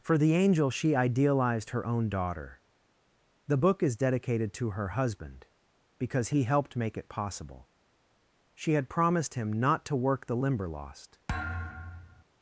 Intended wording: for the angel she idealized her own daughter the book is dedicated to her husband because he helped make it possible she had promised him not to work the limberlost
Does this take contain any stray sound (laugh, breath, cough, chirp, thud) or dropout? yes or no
yes